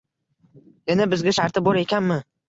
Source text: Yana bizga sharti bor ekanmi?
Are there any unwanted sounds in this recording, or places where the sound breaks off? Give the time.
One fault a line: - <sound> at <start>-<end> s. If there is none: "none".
none